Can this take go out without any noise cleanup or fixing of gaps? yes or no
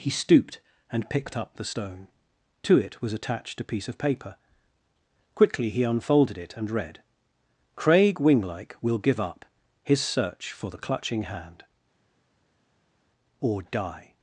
yes